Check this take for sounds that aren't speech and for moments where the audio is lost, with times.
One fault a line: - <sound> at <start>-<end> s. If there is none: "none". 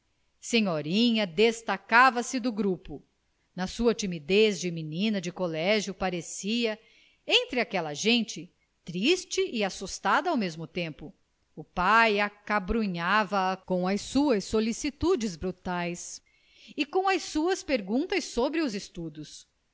none